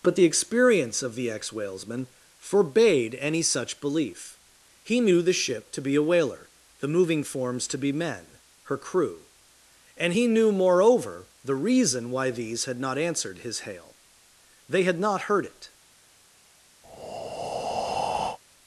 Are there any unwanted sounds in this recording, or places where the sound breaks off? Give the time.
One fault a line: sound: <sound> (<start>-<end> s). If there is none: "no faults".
sound: breath (16.8-18.4 s)